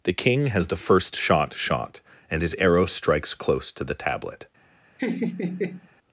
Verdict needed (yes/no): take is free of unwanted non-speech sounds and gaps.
no